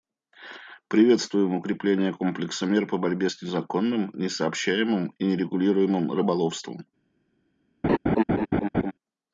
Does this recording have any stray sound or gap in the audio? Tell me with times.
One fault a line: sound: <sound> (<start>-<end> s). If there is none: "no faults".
sound: laugh (7.8-8.9 s)